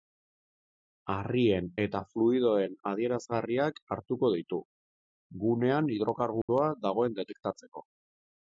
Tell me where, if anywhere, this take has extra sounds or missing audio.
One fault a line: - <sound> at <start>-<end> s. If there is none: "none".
- dropout at 6.4-6.5 s